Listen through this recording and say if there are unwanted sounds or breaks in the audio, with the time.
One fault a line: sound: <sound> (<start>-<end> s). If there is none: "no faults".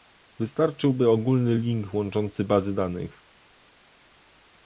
no faults